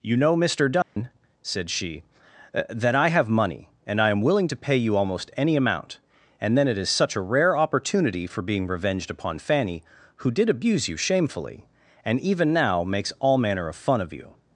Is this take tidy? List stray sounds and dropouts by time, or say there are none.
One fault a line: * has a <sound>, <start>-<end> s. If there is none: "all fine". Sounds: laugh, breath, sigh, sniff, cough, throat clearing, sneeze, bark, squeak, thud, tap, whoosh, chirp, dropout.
* has a dropout, 0.8-1.0 s